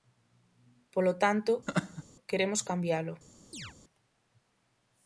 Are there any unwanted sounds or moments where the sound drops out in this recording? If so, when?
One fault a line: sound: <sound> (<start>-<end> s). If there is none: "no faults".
sound: laugh (1.7-2.0 s)
sound: chirp (3.5-3.7 s)